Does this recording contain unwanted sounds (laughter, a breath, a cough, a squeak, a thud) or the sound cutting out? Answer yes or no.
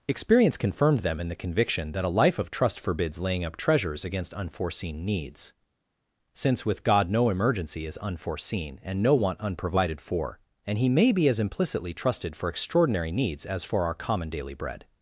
no